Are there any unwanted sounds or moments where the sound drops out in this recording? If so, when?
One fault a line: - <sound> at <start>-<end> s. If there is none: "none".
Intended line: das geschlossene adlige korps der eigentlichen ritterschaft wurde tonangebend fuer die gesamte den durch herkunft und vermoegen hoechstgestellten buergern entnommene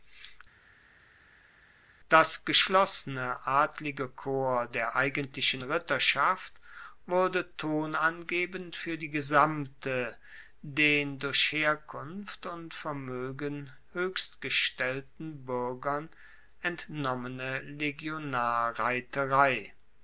none